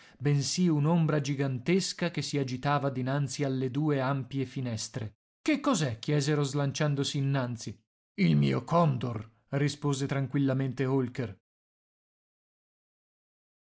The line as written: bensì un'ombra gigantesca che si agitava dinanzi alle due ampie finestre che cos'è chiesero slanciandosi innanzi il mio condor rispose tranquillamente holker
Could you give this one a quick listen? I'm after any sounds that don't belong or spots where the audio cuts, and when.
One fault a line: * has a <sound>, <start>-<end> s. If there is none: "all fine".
all fine